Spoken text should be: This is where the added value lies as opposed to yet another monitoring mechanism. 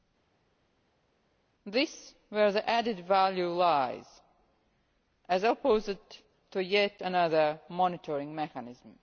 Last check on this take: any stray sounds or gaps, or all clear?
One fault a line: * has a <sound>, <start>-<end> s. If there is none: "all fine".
all fine